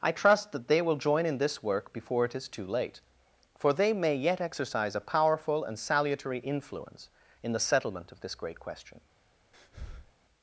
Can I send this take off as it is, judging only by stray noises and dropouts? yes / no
no